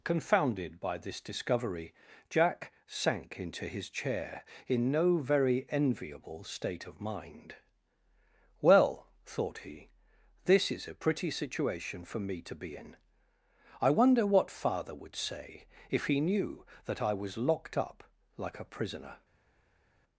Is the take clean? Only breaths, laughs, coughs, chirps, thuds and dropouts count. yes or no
yes